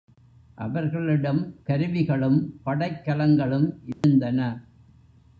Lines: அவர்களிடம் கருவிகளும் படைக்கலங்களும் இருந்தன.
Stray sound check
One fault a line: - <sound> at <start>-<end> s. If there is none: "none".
- dropout at 3.9-4.0 s